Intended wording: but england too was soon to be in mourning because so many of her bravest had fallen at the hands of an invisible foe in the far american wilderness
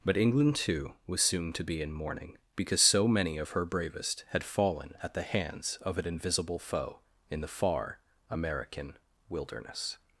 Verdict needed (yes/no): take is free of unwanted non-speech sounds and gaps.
yes